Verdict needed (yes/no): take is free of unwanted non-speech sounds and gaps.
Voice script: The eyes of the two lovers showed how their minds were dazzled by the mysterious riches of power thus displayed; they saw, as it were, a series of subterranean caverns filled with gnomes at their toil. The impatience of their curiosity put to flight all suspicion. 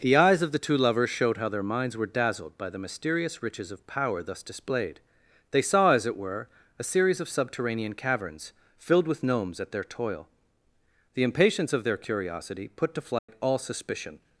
no